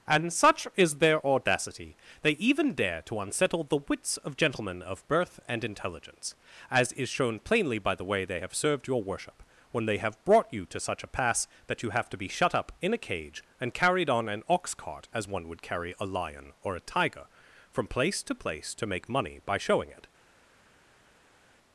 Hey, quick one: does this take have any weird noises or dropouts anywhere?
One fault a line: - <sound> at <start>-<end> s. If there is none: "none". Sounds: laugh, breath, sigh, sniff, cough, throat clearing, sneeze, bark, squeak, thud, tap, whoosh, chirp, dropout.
none